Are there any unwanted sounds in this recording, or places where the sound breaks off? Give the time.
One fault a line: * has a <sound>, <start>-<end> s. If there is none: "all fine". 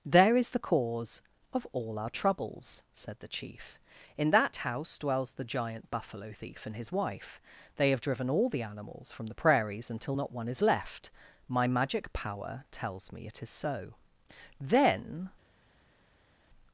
all fine